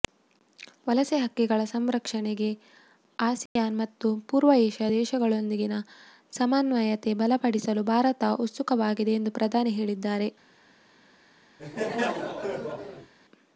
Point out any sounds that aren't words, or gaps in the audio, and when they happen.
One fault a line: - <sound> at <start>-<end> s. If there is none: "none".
- dropout at 3.5-3.6 s
- laugh at 11.6-13.1 s